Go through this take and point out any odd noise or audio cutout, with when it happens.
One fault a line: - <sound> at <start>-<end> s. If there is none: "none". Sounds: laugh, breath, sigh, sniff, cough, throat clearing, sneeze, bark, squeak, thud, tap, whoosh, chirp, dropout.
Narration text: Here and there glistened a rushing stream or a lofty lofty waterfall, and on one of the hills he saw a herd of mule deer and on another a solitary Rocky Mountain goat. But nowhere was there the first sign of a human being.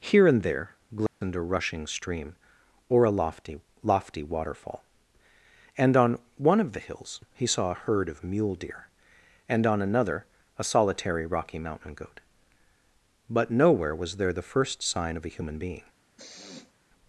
- dropout at 1.1-1.2 s
- sniff at 16.2-16.7 s